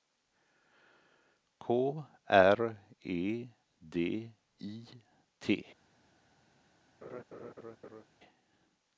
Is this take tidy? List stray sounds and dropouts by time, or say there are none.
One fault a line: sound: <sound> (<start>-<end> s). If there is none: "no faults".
sound: laugh (7.0-8.0 s)